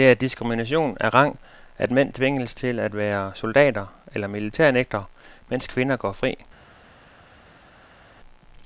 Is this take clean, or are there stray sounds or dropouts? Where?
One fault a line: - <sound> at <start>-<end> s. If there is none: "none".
none